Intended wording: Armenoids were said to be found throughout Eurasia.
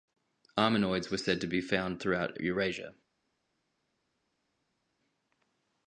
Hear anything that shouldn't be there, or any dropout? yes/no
no